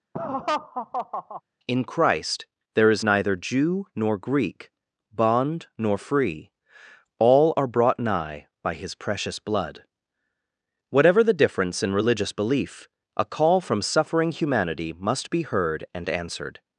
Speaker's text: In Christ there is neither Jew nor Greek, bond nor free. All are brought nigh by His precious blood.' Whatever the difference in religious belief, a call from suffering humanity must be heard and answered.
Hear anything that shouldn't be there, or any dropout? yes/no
yes